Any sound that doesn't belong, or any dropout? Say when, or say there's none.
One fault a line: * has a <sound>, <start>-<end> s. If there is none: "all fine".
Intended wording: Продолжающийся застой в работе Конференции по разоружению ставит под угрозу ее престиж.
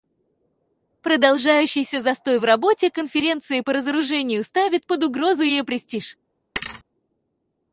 * has a thud, 6.6-6.8 s